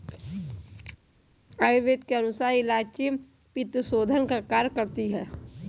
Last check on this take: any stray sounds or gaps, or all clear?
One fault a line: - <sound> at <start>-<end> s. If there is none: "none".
none